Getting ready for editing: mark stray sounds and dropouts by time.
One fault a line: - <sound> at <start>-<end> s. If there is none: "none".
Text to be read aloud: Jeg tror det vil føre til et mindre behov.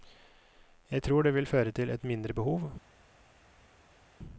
none